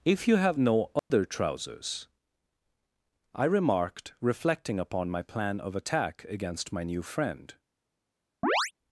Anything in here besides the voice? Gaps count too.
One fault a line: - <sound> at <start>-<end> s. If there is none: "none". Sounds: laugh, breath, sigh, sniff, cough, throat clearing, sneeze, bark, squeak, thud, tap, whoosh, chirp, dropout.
- dropout at 1.0-1.1 s
- chirp at 8.4-8.7 s